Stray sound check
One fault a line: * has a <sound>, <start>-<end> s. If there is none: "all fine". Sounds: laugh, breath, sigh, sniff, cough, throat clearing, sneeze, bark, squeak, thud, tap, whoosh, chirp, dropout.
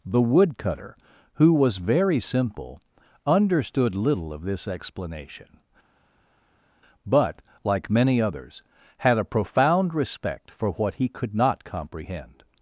all fine